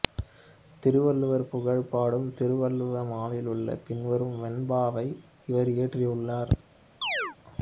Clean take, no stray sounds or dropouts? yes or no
no